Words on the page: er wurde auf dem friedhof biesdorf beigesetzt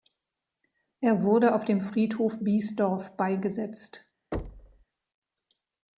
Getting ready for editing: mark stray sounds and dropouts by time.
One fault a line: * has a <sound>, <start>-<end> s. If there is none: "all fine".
* has a thud, 4.3-4.8 s